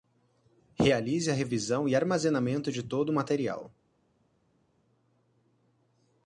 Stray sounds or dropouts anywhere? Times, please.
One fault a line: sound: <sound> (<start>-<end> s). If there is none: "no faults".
no faults